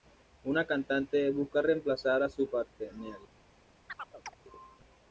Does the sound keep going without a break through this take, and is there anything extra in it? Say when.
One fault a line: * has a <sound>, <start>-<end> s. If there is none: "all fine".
* has a chirp, 3.9-4.3 s